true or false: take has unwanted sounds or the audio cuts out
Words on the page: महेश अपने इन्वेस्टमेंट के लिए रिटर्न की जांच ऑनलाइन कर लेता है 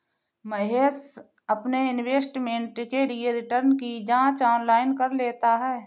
false